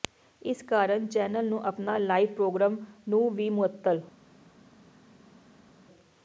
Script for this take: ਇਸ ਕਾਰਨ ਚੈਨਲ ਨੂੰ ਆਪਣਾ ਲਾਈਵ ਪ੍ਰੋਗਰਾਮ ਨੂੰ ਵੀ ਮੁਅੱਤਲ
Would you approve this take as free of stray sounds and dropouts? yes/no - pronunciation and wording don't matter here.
yes